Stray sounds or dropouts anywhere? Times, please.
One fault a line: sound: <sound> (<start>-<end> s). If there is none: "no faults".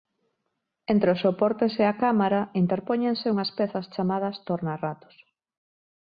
no faults